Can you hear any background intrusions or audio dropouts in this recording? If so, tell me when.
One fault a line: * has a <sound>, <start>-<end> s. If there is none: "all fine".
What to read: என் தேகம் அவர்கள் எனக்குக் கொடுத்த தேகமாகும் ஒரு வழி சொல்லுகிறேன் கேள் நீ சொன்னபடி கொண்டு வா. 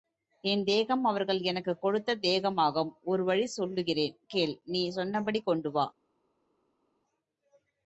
all fine